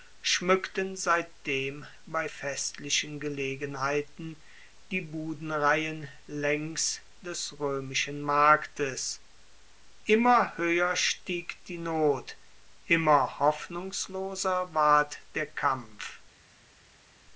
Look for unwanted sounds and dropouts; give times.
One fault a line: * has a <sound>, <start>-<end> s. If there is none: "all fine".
all fine